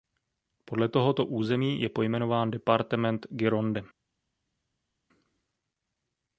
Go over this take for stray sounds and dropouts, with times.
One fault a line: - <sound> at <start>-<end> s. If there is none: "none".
none